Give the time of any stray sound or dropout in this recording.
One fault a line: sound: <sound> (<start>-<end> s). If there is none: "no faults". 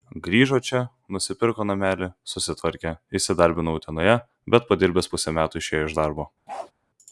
sound: bark (6.5-6.7 s)